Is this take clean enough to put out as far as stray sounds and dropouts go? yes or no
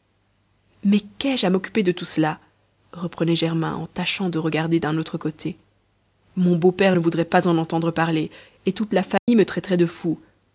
no